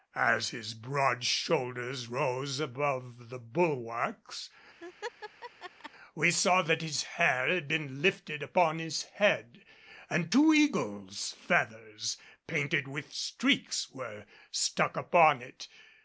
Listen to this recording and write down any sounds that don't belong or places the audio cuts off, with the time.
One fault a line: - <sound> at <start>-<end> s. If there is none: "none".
- laugh at 4.8-5.9 s